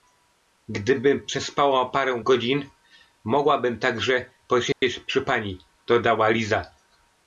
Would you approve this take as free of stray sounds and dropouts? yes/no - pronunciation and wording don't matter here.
no